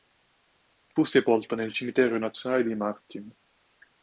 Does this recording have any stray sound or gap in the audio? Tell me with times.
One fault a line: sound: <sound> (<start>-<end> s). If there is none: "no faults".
no faults